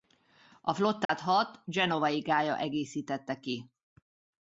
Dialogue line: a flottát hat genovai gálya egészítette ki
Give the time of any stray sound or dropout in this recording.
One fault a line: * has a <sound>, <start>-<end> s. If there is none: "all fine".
* has a dropout, 1.1-1.1 s